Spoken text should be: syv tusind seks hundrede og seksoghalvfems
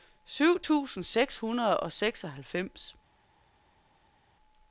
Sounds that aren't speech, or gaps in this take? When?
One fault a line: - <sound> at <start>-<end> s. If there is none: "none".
none